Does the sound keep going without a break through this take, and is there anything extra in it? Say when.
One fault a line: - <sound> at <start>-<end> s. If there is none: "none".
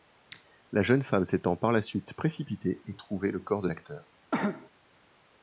- cough at 4.3-4.7 s